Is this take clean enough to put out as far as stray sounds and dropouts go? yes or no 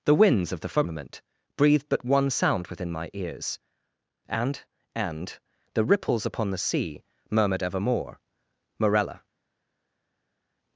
yes